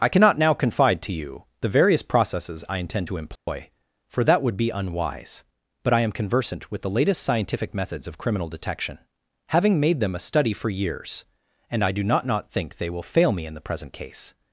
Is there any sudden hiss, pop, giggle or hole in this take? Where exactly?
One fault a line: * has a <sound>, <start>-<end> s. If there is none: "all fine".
* has a dropout, 3.4-3.5 s